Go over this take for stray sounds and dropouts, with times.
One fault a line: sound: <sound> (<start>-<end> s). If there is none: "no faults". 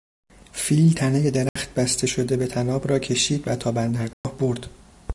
sound: dropout (1.5-1.6 s)
sound: dropout (4.1-4.2 s)